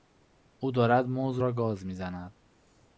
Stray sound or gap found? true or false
false